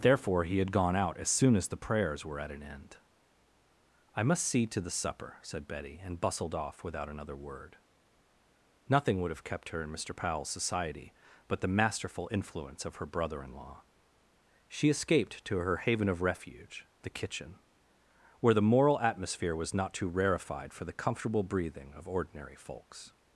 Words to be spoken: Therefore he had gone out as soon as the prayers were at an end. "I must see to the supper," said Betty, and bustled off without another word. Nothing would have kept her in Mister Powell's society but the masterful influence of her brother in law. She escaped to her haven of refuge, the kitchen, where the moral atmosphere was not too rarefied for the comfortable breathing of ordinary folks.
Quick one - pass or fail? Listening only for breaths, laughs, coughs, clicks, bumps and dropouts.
pass